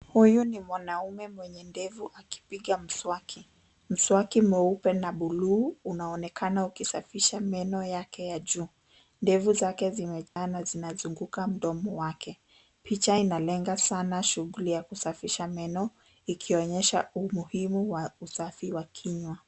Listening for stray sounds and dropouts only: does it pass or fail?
fail